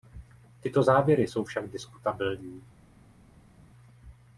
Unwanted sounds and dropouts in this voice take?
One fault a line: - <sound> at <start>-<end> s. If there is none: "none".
none